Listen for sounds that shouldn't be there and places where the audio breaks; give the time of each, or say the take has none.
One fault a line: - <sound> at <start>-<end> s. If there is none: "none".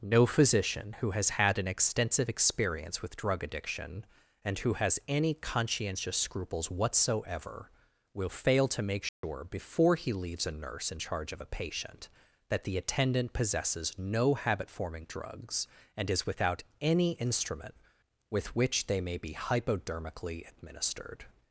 - dropout at 9.1-9.2 s